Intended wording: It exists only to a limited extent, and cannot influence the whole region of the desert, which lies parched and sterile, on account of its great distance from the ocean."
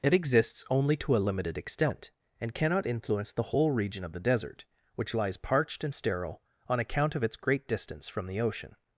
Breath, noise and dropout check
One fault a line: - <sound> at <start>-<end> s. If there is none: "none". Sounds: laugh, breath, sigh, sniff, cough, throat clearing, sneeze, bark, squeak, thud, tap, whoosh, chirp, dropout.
none